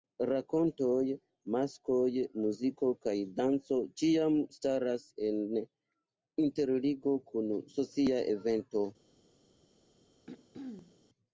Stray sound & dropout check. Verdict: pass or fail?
fail